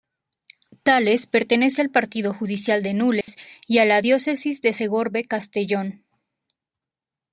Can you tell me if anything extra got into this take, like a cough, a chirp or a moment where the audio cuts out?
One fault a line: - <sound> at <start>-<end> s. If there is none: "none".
- dropout at 3.2-3.3 s